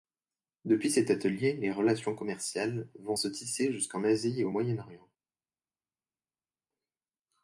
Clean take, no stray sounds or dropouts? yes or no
yes